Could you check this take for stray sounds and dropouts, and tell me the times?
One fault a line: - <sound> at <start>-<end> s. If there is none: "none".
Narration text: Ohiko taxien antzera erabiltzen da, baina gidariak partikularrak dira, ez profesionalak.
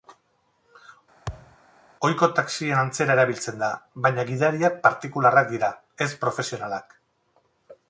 - thud at 1.3-1.6 s